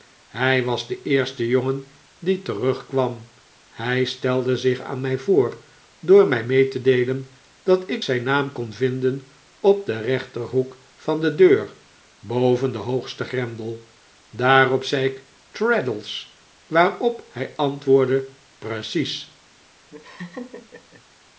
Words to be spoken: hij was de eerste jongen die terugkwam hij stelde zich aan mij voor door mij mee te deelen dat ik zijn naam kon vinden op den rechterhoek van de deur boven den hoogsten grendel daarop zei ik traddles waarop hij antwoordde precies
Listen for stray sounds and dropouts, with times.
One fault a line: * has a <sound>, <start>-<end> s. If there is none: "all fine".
* has a laugh, 19.9-21.0 s